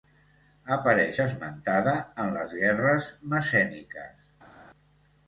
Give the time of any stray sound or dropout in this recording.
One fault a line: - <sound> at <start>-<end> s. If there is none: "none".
none